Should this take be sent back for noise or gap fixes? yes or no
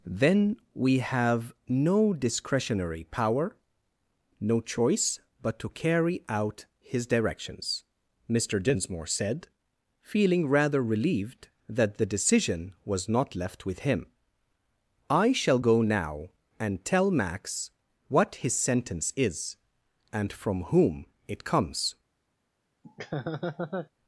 yes